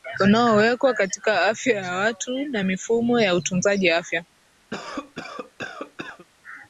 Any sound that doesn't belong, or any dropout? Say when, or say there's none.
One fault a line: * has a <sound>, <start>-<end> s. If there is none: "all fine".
* has a cough, 4.7-6.3 s